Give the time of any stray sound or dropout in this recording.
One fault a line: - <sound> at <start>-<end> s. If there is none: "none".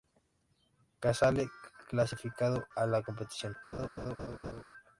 - laugh at 3.7-4.6 s